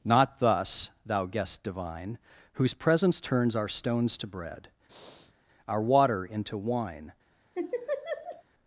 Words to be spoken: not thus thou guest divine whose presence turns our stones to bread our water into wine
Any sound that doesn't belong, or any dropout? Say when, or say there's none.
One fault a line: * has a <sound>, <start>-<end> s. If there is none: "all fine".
* has a breath, 4.9-5.3 s
* has a laugh, 7.5-8.4 s